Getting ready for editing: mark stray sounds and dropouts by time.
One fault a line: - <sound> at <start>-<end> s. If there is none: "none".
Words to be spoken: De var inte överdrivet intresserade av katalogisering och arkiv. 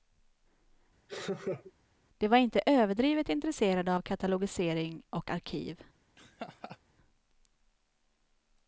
- laugh at 1.1-1.7 s
- laugh at 6.2-6.8 s